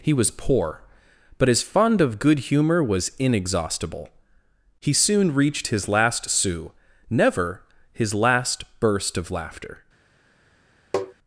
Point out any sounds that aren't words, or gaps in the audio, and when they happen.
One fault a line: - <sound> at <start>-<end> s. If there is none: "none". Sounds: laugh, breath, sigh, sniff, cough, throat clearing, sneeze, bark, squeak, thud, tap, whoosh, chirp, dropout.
- tap at 10.9-11.1 s